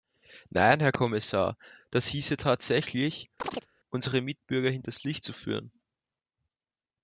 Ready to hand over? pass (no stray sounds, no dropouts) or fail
fail